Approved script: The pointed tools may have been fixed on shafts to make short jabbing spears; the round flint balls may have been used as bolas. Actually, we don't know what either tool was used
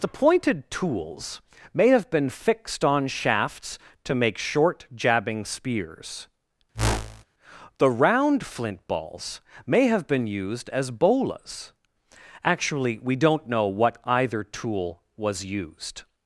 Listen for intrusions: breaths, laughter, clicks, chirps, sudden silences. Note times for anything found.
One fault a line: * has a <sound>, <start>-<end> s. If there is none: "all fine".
* has a whoosh, 6.7-7.2 s